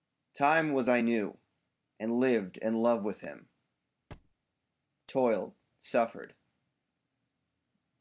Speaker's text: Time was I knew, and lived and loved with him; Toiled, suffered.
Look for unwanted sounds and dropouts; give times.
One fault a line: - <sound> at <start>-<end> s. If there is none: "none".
- thud at 4.1-4.4 s